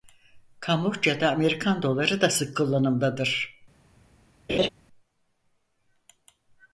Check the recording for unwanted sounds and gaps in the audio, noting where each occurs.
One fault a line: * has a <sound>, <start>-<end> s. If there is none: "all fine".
* has a laugh, 4.5-4.7 s